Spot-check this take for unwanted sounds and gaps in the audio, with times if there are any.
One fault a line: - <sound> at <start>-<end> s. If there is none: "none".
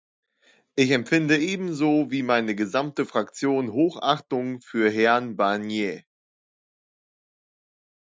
none